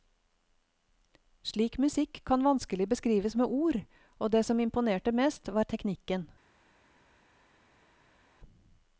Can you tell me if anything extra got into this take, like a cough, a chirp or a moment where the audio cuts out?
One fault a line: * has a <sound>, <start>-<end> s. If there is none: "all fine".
all fine